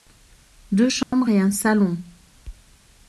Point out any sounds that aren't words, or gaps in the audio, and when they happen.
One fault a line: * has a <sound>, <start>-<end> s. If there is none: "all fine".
* has a dropout, 1.0-1.1 s